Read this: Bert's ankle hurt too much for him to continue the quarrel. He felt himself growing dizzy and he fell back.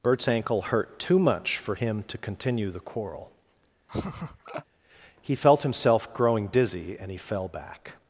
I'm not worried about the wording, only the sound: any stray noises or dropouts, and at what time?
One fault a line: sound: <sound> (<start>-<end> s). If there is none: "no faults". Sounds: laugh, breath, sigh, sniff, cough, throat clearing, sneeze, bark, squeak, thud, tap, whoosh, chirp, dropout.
sound: laugh (3.9-4.6 s)